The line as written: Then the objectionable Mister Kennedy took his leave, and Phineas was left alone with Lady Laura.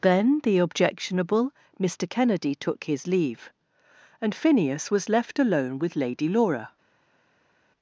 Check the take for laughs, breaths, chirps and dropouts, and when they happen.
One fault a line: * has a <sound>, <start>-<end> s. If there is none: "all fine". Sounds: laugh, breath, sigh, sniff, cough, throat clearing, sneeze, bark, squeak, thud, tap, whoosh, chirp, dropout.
all fine